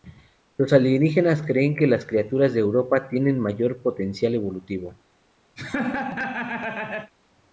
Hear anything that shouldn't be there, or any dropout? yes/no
yes